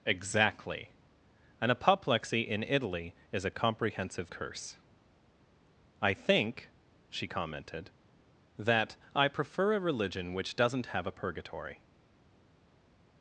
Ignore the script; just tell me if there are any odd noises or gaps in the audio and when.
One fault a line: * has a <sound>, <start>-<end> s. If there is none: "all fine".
all fine